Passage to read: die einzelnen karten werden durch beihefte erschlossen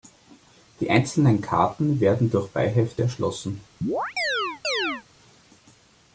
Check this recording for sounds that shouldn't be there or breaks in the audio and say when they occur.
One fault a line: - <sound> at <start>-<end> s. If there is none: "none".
- chirp at 3.8-5.0 s